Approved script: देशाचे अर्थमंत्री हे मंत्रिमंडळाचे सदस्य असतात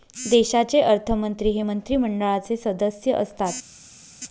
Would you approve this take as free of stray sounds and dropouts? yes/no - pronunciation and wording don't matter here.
yes